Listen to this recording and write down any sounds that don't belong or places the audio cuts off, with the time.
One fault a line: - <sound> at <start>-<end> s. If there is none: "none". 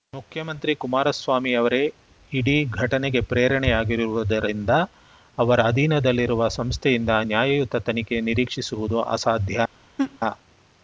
- laugh at 10.0-10.2 s